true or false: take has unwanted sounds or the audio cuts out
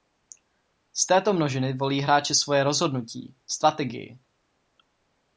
false